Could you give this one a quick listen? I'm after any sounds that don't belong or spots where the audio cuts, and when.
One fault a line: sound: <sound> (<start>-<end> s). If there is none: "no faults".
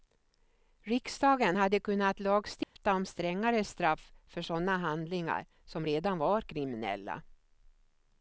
sound: dropout (2.6-2.8 s)